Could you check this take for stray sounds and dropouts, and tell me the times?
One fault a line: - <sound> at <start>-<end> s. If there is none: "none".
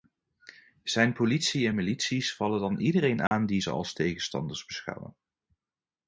- dropout at 3.3-3.3 s